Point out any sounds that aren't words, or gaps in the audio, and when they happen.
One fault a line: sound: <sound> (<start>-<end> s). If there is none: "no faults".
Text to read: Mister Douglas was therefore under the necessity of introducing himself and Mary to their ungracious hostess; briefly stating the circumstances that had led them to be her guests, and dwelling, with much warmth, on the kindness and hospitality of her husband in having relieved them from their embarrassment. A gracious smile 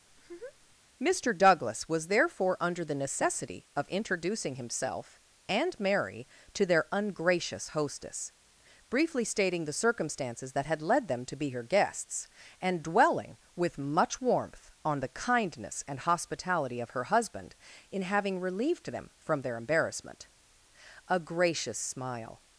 sound: laugh (0.1-0.8 s)